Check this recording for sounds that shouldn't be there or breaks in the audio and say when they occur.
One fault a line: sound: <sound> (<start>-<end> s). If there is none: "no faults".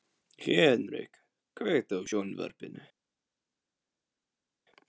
no faults